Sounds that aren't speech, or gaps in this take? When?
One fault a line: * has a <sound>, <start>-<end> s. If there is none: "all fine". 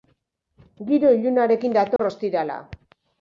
* has a dropout, 2.0-2.0 s